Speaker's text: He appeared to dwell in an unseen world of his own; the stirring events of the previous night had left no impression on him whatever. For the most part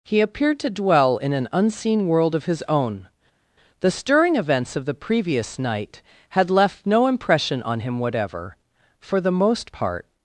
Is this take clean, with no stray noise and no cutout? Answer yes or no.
yes